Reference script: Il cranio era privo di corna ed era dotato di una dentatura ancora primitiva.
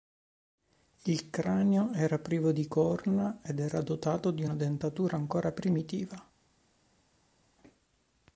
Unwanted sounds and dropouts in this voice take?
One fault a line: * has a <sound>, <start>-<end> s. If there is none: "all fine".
all fine